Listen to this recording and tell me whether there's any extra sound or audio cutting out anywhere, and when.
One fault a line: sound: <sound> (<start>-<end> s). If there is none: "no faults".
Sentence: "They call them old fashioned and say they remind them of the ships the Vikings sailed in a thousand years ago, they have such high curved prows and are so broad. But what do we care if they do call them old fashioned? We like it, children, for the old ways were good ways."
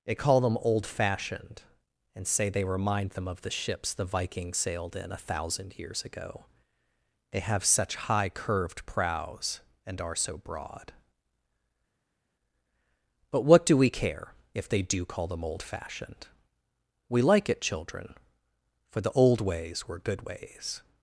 no faults